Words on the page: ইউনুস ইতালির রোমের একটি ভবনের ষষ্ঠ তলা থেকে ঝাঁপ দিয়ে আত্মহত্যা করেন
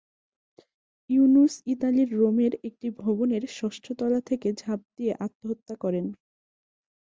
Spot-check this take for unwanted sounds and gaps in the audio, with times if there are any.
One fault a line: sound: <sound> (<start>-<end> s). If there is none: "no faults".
no faults